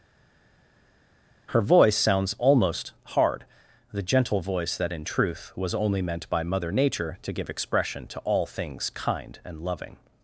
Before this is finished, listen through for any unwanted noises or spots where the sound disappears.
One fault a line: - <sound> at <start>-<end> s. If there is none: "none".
none